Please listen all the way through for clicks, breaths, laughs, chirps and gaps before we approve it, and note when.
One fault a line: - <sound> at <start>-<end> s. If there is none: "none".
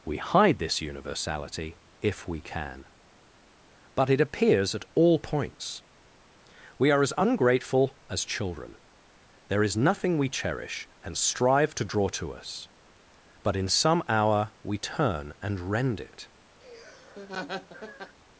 - laugh at 16.6-18.2 s